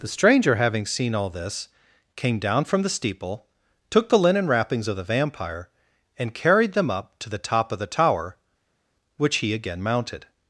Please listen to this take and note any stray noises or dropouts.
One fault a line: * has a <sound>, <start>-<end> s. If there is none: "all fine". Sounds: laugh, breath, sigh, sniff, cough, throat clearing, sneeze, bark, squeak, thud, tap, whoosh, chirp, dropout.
all fine